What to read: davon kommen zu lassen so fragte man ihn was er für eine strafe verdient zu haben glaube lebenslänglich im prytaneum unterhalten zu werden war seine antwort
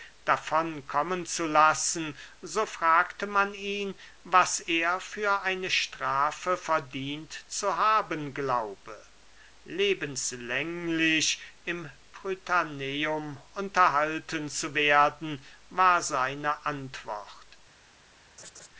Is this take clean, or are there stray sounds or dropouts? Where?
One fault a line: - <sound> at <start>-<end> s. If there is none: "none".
- laugh at 18.4-18.7 s